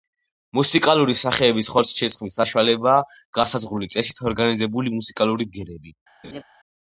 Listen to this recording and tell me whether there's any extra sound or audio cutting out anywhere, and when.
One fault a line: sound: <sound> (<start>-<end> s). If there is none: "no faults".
sound: laugh (6.2-6.4 s)